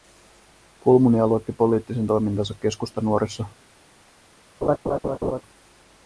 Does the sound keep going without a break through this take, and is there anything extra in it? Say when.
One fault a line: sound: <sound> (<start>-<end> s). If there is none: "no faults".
sound: laugh (4.6-5.4 s)